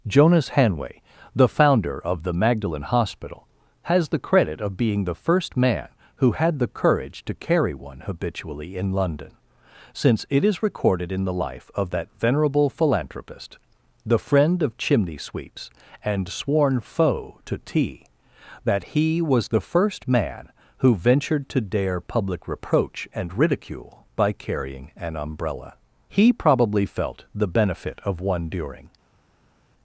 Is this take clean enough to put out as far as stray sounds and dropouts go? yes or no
yes